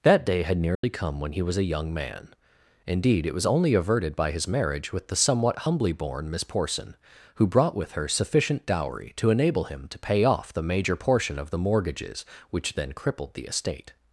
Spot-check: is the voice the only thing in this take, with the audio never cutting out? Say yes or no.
no